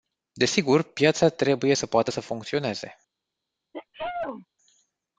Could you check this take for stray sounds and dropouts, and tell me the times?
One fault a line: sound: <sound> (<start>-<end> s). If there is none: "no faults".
sound: sneeze (3.7-4.5 s)